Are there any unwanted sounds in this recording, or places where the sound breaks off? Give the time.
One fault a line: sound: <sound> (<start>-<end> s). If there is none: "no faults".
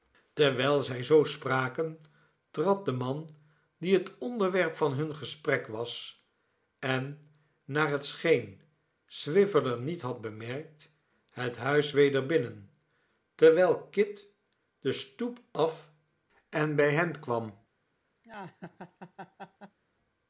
sound: laugh (18.2-19.8 s)